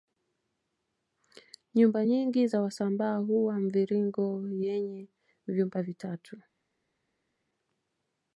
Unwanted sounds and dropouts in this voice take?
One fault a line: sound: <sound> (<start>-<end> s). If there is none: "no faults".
no faults